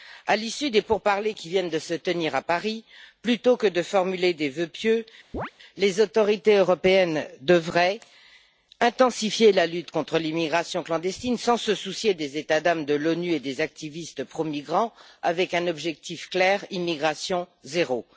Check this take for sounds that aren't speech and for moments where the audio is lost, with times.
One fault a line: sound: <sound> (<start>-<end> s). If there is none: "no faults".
sound: chirp (5.3-5.5 s)